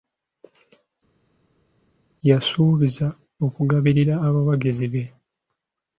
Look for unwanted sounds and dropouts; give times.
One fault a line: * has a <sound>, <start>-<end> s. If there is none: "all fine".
all fine